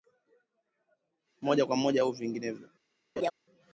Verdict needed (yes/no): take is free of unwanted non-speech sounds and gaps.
no